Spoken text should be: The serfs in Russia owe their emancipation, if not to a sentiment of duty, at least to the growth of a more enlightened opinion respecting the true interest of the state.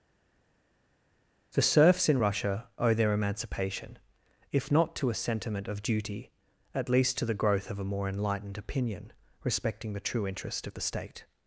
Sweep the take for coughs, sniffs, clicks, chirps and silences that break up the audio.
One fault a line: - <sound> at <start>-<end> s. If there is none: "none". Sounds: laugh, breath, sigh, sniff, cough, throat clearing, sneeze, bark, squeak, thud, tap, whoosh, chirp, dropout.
none